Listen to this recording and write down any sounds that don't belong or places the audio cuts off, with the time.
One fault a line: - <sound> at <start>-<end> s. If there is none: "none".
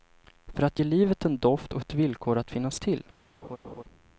- laugh at 3.4-3.8 s